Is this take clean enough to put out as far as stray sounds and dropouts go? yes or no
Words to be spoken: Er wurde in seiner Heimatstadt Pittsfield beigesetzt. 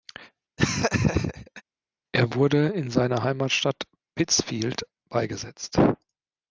no